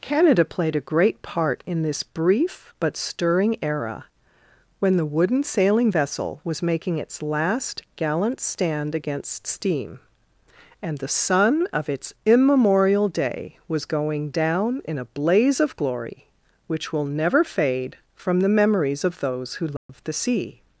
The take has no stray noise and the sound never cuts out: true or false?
false